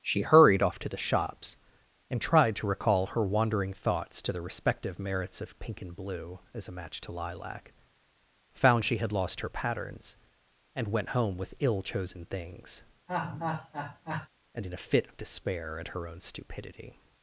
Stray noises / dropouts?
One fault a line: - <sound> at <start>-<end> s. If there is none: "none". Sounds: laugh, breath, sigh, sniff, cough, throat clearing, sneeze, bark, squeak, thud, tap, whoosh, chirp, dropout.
- laugh at 13.1-14.3 s